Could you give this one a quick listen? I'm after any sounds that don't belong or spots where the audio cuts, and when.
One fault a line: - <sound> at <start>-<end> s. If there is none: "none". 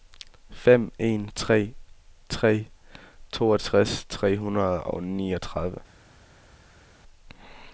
none